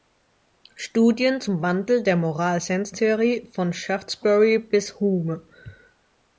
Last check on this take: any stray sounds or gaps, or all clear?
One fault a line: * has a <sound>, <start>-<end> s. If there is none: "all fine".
all fine